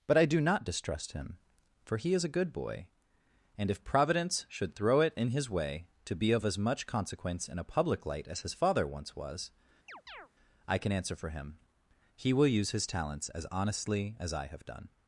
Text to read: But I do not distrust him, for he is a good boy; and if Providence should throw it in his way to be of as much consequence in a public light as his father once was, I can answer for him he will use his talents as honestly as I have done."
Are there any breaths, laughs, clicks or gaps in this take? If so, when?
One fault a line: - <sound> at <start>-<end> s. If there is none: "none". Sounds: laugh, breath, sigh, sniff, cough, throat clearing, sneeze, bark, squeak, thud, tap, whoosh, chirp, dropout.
- chirp at 9.9-10.3 s